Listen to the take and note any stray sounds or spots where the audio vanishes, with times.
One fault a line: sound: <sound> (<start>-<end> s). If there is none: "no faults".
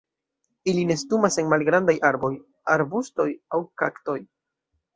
no faults